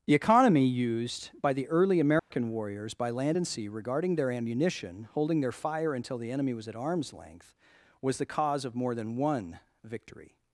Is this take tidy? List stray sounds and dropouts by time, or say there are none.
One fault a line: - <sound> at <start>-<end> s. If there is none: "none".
- dropout at 2.2-2.3 s